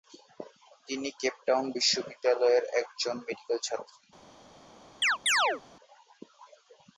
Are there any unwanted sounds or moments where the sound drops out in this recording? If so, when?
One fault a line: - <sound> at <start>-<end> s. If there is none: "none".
- chirp at 5.0-5.6 s